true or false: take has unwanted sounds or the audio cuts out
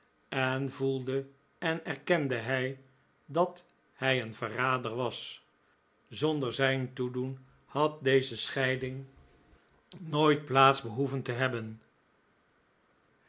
false